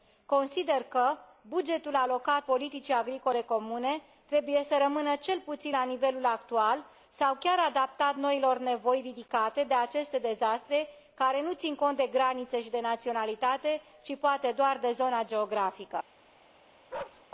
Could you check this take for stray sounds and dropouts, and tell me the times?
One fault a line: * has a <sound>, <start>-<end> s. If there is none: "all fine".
* has a bark, 16.9-17.2 s